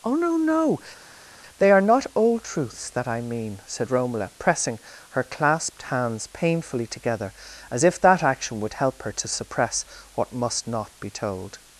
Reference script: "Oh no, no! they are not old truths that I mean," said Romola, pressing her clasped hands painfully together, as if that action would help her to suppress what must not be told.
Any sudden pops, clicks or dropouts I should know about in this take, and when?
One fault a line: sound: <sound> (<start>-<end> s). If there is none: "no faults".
no faults